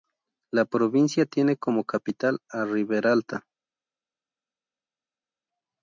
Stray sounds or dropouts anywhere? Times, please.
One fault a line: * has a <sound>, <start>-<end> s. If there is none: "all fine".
all fine